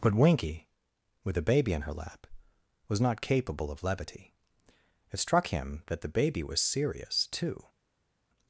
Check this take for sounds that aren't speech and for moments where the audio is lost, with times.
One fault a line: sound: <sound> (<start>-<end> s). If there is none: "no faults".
no faults